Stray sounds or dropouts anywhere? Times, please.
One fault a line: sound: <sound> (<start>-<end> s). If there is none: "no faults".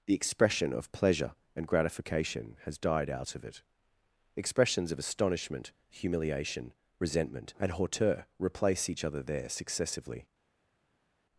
no faults